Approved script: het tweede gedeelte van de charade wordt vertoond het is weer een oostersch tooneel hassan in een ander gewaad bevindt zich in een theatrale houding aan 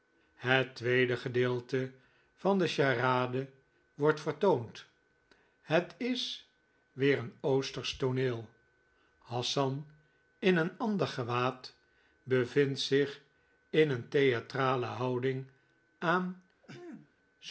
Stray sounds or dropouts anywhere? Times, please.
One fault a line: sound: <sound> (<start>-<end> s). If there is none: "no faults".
sound: throat clearing (16.6-17.1 s)